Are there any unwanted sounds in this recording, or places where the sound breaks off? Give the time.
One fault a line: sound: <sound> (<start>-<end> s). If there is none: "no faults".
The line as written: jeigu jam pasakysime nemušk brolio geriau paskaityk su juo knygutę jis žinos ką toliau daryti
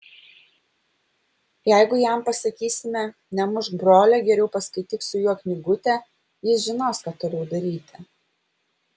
no faults